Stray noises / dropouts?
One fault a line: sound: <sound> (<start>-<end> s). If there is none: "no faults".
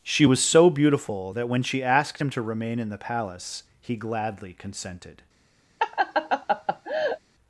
sound: laugh (5.8-7.2 s)